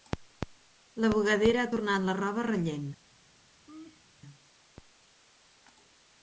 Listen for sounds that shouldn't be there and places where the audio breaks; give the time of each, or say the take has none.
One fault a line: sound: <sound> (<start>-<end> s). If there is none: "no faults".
sound: laugh (3.7-4.0 s)